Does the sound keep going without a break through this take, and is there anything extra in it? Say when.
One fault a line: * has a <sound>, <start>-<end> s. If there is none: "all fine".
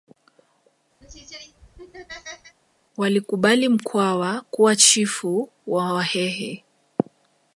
* has a laugh, 1.0-2.6 s